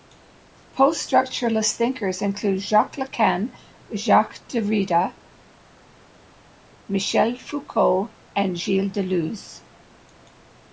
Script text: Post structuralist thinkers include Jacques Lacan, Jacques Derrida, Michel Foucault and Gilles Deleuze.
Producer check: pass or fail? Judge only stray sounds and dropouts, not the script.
pass